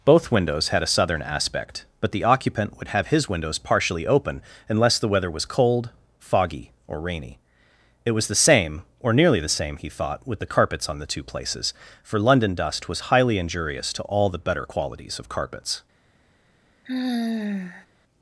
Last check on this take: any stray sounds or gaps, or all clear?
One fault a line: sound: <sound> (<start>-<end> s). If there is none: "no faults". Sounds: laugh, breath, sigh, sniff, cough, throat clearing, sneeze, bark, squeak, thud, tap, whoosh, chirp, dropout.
sound: sigh (16.9-17.9 s)